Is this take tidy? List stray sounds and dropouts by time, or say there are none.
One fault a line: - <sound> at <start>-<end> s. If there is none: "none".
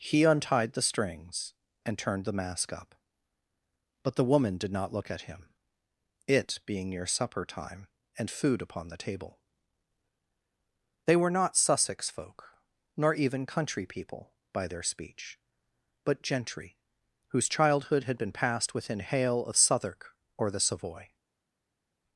none